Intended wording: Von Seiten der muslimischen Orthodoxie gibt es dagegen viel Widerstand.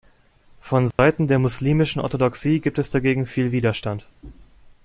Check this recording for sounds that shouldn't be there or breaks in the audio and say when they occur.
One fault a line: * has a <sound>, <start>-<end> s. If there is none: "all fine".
* has a dropout, 0.9-1.0 s